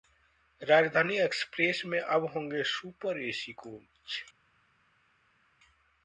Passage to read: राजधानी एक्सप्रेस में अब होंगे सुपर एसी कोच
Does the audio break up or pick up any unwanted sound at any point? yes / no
no